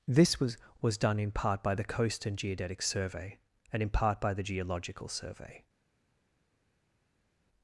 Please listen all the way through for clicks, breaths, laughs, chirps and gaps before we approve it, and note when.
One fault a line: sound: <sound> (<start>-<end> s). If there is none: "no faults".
no faults